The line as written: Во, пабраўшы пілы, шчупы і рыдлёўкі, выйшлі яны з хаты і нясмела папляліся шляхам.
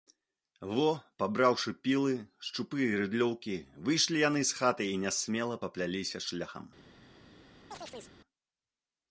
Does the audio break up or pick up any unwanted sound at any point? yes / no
yes